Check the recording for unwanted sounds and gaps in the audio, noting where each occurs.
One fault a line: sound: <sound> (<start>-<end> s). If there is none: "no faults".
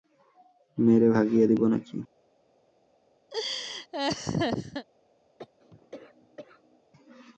sound: laugh (3.3-4.9 s)
sound: cough (5.4-6.8 s)